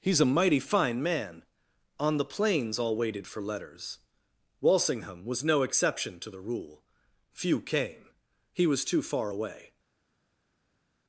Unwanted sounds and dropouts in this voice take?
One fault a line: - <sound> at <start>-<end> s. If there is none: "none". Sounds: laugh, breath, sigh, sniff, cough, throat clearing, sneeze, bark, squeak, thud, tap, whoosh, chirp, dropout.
none